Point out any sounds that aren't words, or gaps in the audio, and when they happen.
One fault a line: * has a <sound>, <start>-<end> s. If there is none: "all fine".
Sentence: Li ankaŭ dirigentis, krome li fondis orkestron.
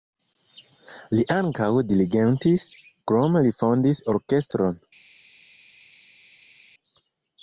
all fine